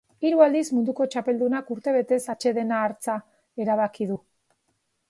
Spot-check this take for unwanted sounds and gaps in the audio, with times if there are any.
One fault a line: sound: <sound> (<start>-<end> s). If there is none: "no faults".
no faults